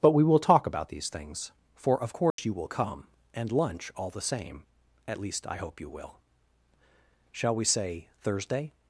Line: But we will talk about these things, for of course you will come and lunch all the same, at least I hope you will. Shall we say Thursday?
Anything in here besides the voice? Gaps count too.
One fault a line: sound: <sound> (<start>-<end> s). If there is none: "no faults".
sound: dropout (2.3-2.4 s)